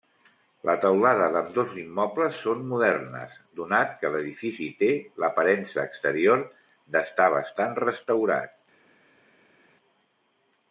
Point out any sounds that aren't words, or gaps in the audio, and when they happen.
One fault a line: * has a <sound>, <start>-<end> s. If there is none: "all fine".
all fine